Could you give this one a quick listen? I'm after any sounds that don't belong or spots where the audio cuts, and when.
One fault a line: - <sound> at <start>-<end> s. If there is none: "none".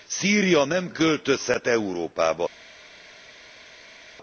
none